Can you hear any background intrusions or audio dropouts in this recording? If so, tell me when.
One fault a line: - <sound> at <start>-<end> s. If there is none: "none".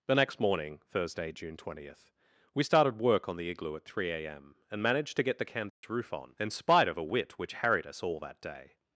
- dropout at 5.7-5.8 s